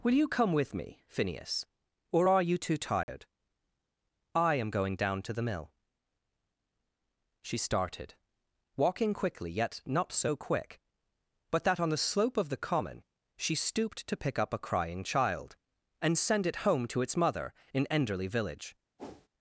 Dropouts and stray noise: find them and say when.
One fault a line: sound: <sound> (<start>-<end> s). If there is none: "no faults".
sound: dropout (3.0-3.1 s)
sound: whoosh (19.0-19.3 s)